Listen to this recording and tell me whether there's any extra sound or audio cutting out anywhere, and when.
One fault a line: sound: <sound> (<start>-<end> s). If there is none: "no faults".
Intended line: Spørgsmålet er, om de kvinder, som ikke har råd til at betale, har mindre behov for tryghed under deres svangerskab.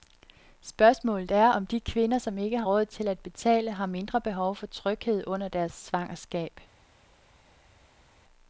no faults